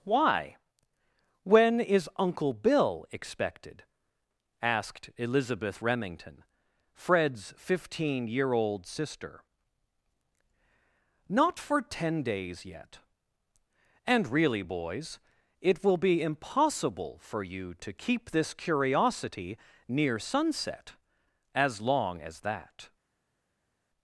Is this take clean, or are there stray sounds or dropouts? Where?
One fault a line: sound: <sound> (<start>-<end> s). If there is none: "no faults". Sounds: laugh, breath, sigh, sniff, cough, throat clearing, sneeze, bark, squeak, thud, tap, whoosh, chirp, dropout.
no faults